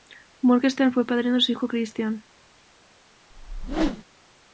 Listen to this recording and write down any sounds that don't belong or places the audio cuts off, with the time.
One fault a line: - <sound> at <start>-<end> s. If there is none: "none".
- whoosh at 3.3-4.0 s